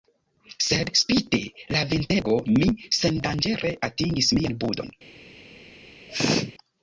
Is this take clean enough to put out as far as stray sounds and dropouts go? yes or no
no